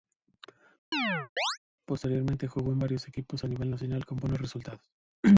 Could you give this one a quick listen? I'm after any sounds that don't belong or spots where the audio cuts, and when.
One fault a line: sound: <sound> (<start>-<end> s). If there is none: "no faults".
sound: chirp (0.9-1.6 s)